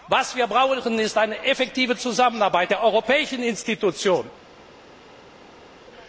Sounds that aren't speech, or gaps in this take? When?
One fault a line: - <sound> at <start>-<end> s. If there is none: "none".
none